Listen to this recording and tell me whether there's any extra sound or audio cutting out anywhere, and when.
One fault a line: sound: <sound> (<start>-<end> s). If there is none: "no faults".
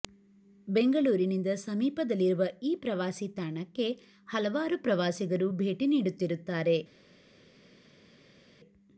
no faults